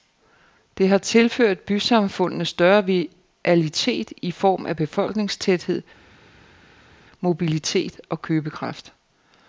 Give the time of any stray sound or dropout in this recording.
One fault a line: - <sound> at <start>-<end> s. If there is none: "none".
none